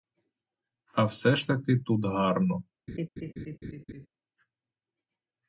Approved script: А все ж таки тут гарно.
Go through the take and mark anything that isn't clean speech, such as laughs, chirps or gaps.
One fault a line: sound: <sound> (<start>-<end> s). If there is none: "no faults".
sound: laugh (2.9-4.1 s)